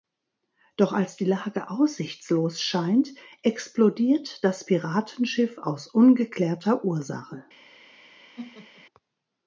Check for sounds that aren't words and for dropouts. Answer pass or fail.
fail